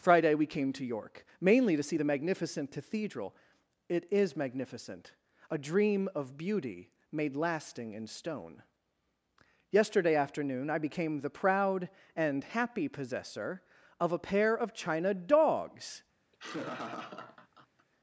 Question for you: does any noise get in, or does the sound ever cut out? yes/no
yes